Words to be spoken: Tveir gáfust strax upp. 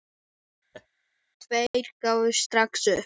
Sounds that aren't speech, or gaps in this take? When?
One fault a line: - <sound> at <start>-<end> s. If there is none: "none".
- laugh at 0.7-0.9 s